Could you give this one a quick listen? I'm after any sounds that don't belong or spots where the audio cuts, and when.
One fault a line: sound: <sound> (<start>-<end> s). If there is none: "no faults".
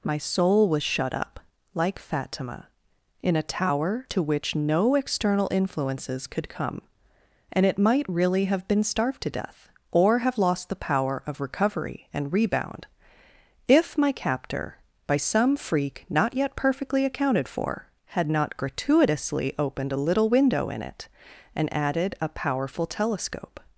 no faults